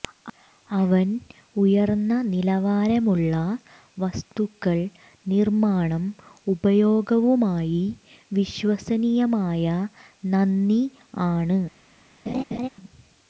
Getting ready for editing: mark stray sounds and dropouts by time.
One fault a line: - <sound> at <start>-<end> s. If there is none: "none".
- laugh at 12.3-12.7 s